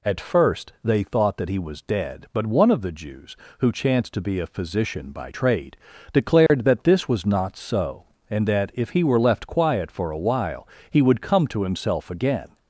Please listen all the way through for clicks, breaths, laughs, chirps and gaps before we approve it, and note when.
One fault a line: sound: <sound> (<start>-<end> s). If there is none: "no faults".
sound: dropout (6.5-6.5 s)